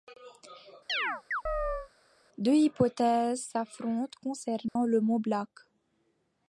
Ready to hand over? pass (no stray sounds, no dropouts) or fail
fail